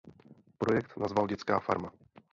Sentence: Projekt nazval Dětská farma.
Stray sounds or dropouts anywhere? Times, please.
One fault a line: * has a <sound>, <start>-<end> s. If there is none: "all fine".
all fine